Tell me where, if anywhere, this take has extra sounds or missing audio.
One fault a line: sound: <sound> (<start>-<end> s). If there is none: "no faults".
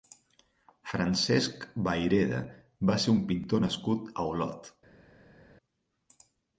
no faults